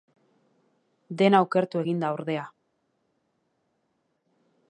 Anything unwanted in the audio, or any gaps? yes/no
no